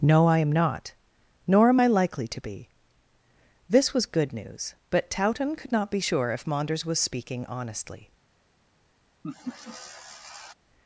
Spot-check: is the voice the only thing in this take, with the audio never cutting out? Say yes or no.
no